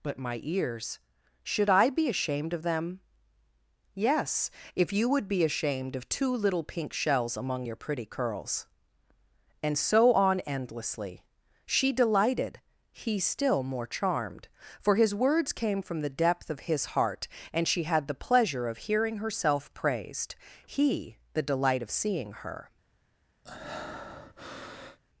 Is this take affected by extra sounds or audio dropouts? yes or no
yes